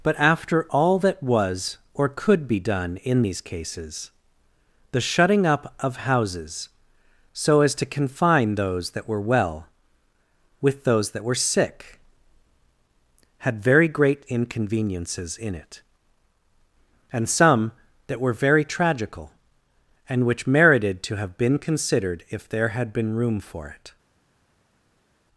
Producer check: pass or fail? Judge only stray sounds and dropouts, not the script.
pass